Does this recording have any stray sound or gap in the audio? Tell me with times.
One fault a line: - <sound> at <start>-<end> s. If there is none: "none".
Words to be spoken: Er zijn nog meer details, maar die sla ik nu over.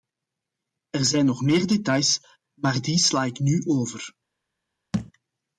- thud at 4.9-5.1 s